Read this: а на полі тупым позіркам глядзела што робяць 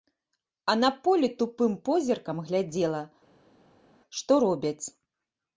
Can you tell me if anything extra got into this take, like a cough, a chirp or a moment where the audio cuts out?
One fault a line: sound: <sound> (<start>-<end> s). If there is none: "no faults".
no faults